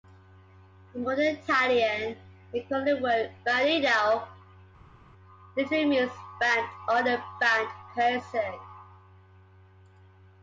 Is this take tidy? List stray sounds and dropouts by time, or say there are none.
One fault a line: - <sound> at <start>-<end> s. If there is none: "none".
none